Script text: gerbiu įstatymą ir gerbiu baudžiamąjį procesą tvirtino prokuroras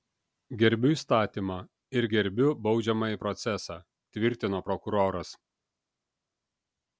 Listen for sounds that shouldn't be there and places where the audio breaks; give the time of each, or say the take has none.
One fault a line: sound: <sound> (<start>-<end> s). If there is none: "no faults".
no faults